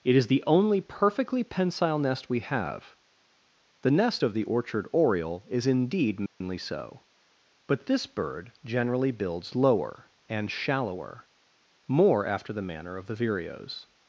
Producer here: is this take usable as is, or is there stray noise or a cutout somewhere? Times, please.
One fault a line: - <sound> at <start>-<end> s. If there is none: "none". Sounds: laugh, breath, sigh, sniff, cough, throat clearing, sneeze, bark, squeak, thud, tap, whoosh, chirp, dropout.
- dropout at 6.3-6.4 s